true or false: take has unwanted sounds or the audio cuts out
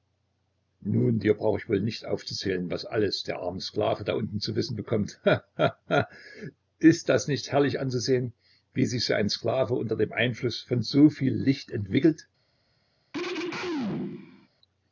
true